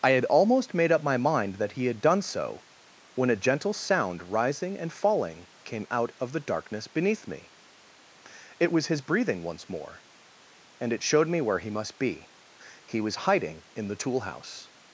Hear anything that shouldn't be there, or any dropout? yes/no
no